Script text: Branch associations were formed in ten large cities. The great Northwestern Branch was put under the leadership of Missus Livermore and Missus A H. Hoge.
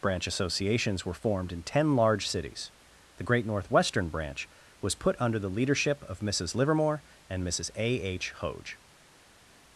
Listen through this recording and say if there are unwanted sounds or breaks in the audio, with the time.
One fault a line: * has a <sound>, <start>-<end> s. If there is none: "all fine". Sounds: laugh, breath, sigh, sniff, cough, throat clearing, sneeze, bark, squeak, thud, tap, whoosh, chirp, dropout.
all fine